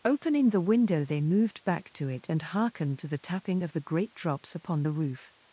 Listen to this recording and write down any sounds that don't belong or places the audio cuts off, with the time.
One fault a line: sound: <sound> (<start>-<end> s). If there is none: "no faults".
no faults